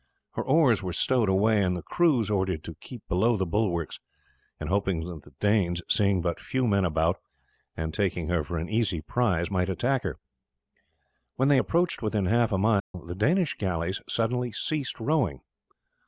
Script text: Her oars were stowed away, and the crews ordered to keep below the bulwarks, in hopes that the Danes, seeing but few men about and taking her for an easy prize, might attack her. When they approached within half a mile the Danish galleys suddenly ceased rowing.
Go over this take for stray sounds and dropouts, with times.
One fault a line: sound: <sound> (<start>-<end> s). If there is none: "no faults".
sound: dropout (12.8-12.9 s)